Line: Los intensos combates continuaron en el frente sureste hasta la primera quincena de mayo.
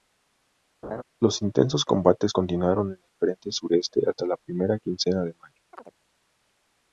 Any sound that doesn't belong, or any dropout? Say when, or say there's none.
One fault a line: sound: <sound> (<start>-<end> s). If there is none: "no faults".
sound: laugh (0.8-1.0 s)
sound: chirp (5.7-5.9 s)